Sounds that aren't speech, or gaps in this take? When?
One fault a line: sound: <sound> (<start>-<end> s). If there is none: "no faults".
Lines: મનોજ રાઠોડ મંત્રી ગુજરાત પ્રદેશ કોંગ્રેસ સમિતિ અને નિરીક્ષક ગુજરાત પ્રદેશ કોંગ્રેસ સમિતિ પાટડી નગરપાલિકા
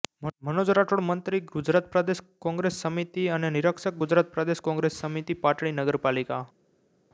no faults